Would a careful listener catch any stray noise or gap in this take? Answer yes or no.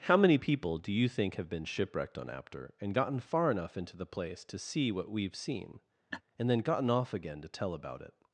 yes